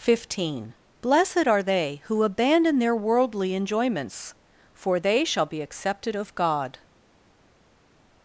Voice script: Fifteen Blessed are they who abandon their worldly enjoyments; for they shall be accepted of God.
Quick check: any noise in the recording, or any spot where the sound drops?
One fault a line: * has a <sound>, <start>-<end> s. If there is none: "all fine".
all fine